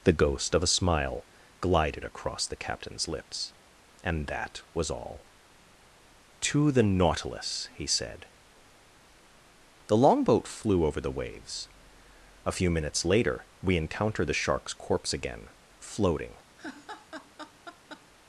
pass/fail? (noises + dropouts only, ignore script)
fail